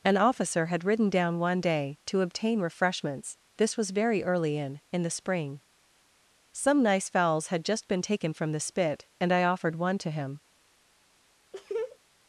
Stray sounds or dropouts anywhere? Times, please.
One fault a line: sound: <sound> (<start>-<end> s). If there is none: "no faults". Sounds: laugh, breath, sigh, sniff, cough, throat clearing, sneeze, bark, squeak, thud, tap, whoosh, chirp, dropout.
sound: laugh (11.5-12.0 s)